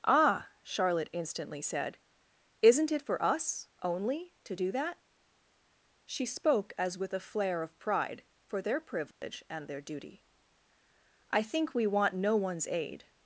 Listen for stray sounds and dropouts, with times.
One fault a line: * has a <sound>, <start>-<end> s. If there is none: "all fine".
* has a dropout, 9.1-9.2 s